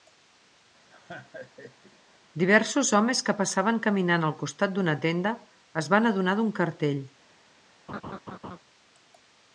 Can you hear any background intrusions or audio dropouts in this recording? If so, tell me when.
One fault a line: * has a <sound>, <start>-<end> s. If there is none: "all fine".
* has a laugh, 0.9-2.0 s
* has a laugh, 7.9-8.6 s